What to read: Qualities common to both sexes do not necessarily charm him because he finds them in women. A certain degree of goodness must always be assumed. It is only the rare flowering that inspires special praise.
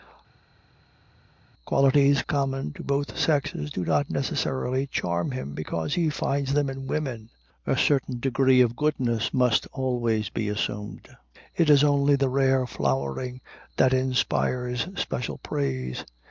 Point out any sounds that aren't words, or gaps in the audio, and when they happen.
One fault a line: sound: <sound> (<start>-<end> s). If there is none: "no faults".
no faults